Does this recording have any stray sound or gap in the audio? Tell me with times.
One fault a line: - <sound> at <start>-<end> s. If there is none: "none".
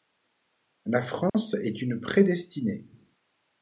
- dropout at 1.3-1.3 s